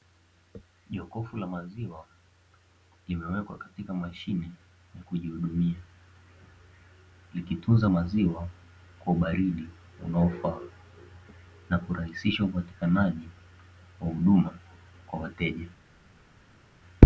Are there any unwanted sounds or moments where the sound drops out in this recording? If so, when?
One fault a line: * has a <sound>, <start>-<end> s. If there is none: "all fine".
all fine